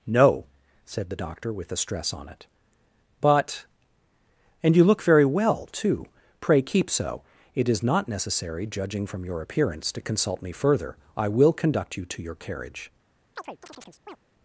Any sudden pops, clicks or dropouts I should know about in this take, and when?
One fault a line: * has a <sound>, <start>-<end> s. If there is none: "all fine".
* has a chirp, 13.4-14.2 s